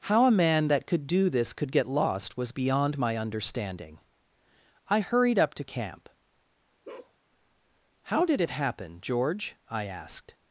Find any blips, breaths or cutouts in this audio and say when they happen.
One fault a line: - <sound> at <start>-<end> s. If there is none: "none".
- bark at 6.8-7.2 s